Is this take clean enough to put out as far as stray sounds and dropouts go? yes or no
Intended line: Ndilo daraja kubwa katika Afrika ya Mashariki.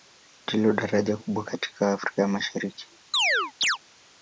no